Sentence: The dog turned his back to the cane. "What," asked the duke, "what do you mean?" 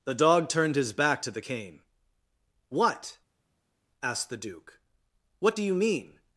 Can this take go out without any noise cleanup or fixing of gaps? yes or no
yes